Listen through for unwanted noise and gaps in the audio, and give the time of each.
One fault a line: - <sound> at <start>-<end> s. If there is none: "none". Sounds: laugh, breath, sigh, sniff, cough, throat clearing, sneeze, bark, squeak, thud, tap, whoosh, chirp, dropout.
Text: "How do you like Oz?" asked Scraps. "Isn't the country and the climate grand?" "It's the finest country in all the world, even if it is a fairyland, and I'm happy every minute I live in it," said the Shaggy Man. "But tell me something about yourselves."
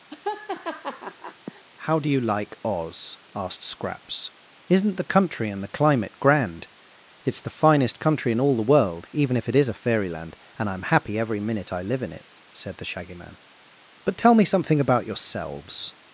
- laugh at 0.1-1.6 s